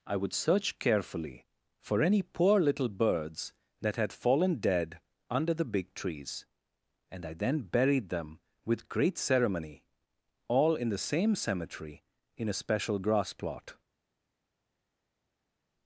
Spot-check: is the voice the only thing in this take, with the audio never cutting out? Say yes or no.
yes